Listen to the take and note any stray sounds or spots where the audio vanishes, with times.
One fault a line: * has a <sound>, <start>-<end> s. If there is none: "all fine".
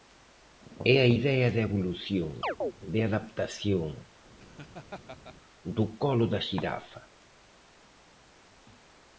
* has a chirp, 2.4-2.7 s
* has a laugh, 4.4-5.4 s